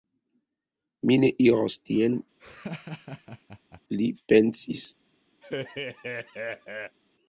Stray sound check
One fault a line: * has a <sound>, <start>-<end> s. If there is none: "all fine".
* has a laugh, 2.4-3.8 s
* has a laugh, 5.4-7.0 s